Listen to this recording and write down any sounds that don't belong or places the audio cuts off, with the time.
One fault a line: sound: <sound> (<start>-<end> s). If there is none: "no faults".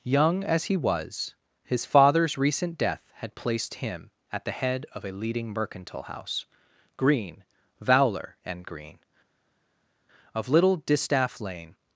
no faults